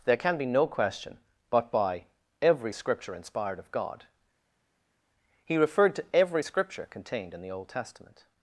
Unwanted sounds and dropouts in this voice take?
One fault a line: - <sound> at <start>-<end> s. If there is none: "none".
none